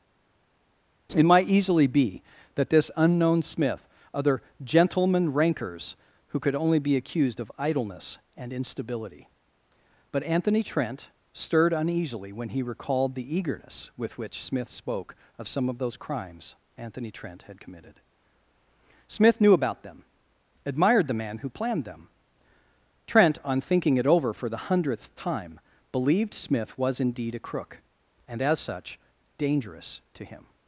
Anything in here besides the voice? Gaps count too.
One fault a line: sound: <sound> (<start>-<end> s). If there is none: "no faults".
no faults